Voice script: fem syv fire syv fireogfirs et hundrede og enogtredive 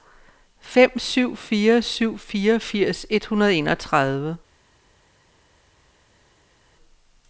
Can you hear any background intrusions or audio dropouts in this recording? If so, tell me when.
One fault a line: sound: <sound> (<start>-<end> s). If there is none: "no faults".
no faults